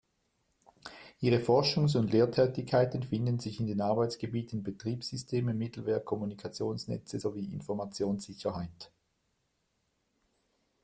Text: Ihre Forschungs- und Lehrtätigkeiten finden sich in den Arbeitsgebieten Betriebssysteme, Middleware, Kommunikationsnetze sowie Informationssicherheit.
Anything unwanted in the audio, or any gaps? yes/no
no